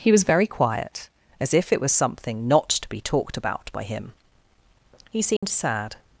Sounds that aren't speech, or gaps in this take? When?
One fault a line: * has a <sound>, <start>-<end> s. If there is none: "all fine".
* has a dropout, 5.4-5.4 s